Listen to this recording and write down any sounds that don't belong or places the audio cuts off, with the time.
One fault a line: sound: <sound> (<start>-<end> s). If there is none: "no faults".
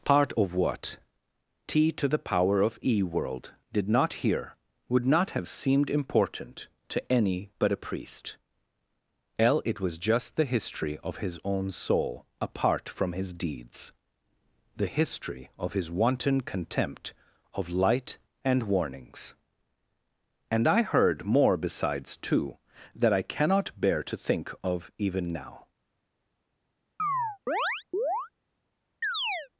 sound: chirp (27.0-28.3 s)
sound: chirp (29.0-29.5 s)